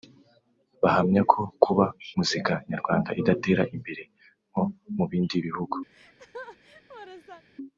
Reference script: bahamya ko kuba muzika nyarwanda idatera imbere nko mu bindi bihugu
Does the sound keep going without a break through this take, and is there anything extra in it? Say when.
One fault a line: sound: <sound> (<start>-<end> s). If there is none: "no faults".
sound: laugh (5.9-7.4 s)